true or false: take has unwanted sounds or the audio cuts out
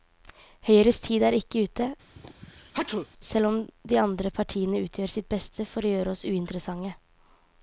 true